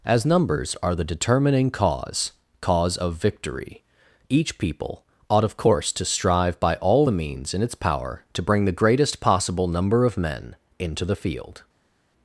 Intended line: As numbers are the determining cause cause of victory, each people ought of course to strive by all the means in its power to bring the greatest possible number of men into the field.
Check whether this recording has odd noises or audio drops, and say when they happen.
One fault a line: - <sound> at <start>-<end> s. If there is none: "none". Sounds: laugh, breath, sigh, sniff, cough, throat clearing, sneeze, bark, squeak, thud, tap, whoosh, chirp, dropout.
none